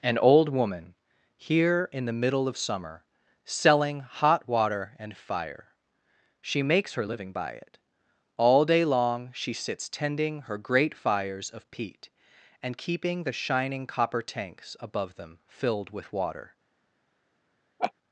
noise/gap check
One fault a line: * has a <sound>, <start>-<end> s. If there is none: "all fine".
* has a laugh, 17.8-17.9 s